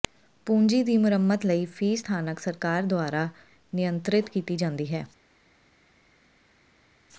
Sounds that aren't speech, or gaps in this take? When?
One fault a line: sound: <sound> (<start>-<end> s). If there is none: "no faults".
no faults